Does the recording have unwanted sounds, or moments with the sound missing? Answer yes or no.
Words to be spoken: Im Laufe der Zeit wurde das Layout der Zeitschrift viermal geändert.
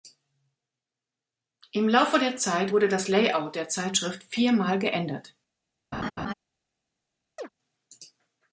yes